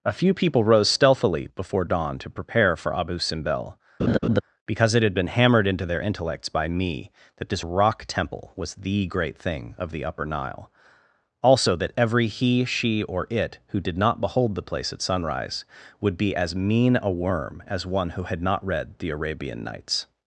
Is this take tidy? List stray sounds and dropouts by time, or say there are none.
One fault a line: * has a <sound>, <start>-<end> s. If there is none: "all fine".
* has a laugh, 4.0-4.4 s